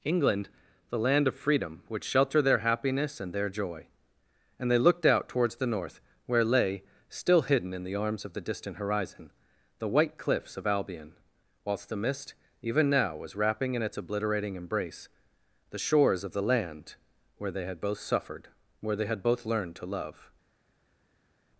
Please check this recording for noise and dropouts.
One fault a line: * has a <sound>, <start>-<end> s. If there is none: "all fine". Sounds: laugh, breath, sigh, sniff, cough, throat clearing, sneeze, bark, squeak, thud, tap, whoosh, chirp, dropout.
all fine